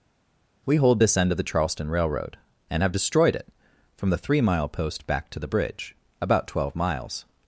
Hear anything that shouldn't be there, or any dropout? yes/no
no